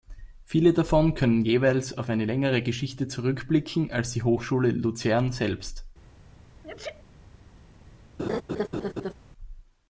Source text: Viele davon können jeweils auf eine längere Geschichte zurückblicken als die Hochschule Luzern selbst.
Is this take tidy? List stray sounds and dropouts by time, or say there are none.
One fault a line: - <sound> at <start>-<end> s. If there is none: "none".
- sneeze at 6.6-7.0 s
- laugh at 8.2-9.1 s